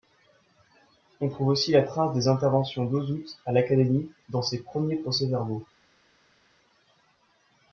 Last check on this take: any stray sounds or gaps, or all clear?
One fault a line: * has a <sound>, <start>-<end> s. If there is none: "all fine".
all fine